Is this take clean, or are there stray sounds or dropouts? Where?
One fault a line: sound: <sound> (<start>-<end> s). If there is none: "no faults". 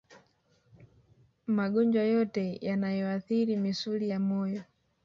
no faults